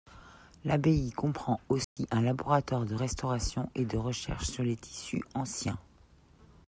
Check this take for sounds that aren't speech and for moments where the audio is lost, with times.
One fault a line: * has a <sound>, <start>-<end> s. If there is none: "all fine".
* has a dropout, 1.8-2.0 s